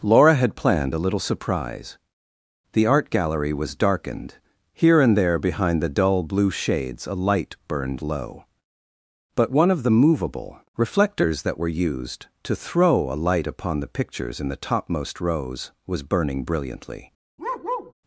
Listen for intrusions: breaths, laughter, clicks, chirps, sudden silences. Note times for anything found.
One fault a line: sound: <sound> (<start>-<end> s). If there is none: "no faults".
sound: bark (17.4-17.9 s)